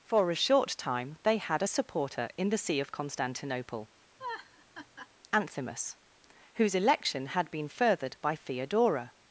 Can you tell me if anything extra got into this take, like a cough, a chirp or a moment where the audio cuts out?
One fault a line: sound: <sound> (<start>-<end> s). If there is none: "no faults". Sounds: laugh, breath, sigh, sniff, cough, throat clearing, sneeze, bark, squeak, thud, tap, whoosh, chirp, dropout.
sound: laugh (4.2-5.1 s)